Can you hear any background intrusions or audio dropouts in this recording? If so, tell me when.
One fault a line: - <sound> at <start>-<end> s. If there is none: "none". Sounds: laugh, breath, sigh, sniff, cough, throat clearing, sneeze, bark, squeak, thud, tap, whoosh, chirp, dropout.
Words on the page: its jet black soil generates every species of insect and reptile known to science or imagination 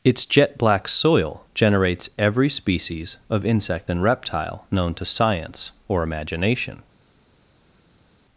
none